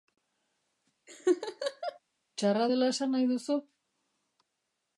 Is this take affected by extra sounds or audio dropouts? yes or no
yes